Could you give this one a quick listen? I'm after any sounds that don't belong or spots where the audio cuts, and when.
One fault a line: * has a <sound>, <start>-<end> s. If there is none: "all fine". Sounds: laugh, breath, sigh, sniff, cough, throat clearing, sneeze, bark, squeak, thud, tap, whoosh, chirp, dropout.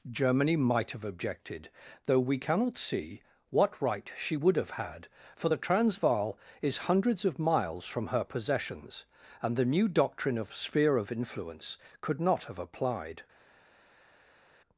all fine